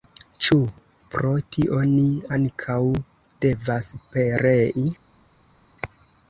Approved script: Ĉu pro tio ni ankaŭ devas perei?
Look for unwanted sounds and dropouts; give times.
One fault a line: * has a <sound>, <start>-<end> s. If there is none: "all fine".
all fine